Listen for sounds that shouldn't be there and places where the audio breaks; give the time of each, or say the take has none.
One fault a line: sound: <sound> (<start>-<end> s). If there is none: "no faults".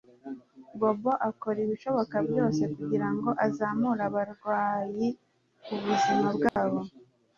sound: dropout (6.5-6.6 s)